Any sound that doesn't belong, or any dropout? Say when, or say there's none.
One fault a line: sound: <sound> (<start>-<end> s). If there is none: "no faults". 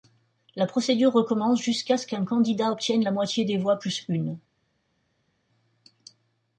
no faults